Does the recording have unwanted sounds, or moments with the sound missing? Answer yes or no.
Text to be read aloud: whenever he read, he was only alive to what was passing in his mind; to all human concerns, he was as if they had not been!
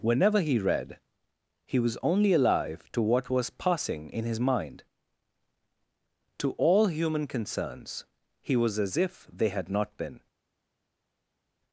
no